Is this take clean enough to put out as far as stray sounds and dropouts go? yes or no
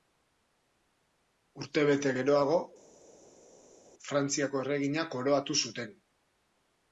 yes